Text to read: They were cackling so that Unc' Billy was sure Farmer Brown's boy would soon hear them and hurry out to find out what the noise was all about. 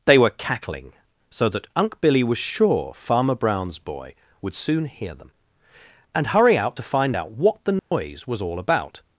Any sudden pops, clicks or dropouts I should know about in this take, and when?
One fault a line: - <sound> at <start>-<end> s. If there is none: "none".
- dropout at 7.8-7.9 s